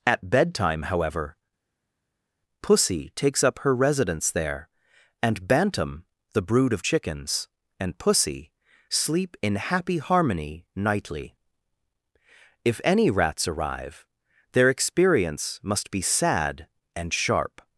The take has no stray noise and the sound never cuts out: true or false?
true